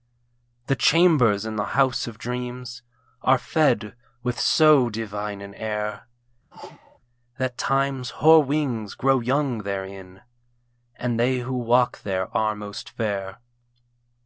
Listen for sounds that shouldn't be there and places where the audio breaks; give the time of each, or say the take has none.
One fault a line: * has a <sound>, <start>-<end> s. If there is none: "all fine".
* has a sneeze, 6.5-7.0 s